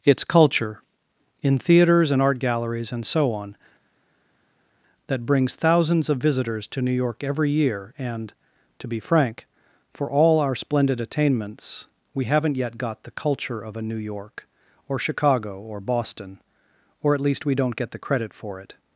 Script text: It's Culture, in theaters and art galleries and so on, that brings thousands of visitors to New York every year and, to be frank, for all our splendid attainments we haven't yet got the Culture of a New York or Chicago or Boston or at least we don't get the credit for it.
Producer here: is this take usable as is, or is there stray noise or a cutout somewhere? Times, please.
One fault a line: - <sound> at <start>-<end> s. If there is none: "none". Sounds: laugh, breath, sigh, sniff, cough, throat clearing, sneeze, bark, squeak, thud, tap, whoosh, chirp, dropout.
none